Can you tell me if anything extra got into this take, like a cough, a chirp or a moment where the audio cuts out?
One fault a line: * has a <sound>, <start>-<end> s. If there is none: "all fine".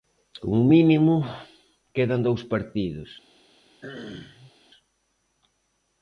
* has a throat clearing, 3.8-4.5 s